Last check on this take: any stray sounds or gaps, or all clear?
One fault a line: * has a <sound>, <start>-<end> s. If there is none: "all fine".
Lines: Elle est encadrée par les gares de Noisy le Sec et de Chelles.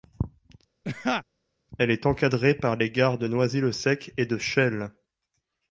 * has a laugh, 0.8-1.2 s